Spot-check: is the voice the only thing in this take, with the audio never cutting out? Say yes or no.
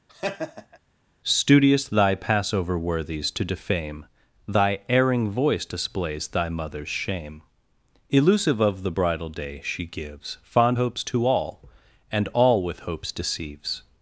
no